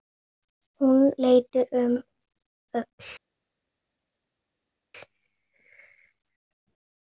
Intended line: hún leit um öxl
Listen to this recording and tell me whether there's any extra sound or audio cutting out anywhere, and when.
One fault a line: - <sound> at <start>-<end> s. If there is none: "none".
none